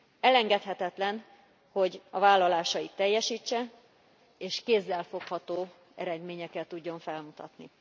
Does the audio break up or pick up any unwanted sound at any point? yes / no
no